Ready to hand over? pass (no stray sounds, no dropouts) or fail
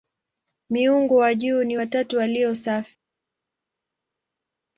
pass